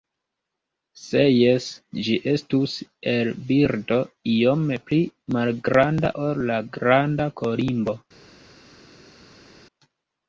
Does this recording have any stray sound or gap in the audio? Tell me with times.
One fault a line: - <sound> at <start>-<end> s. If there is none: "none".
none